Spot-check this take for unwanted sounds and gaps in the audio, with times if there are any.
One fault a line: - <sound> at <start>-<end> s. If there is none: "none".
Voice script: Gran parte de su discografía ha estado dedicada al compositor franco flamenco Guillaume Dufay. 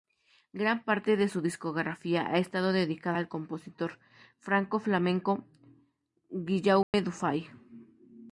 - dropout at 6.8-6.9 s